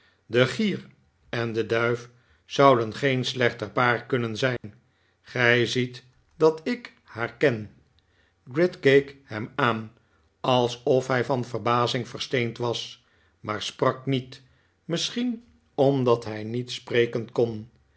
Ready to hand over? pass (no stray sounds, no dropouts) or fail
fail